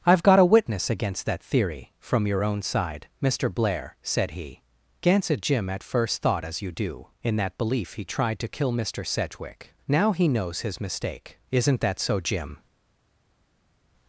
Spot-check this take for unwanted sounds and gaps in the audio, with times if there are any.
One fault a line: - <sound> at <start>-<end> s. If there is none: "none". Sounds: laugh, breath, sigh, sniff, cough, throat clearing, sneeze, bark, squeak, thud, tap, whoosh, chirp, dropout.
none